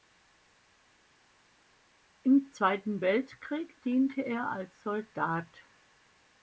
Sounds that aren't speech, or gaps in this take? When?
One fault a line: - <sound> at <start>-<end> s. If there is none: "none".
none